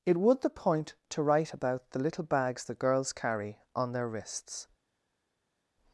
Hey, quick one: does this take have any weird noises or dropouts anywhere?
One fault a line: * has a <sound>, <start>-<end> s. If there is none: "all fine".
all fine